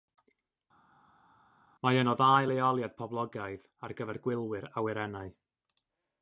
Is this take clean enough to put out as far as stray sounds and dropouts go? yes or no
yes